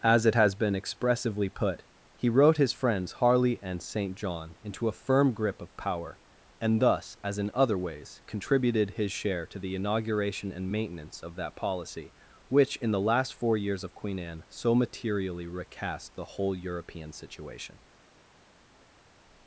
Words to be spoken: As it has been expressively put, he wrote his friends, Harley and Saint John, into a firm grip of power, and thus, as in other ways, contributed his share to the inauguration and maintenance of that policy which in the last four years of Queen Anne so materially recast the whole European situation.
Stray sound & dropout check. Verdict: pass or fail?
pass